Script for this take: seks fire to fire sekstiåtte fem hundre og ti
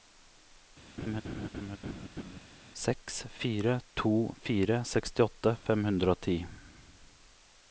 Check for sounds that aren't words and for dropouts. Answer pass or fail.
fail